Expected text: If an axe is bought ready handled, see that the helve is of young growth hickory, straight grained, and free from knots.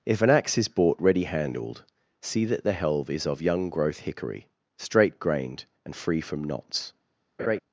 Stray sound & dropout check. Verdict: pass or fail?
fail